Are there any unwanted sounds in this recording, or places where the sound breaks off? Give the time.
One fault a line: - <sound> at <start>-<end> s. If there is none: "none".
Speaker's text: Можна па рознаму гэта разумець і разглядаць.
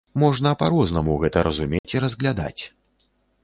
- dropout at 1.8-1.8 s